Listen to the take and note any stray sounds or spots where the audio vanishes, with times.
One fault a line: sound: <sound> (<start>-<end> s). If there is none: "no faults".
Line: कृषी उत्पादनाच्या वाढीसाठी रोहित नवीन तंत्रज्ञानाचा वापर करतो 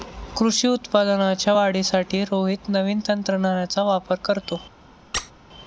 sound: squeak (5.1-5.3 s)